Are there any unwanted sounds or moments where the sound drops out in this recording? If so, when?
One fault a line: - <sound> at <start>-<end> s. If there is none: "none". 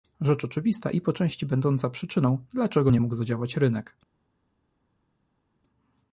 none